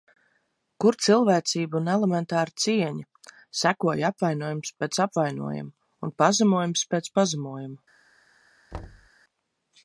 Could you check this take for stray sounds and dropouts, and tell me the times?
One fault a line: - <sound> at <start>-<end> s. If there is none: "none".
- thud at 8.7-9.1 s